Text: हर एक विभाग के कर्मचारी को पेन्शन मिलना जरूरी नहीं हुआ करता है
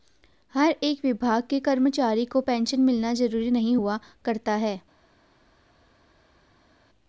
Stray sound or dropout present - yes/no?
no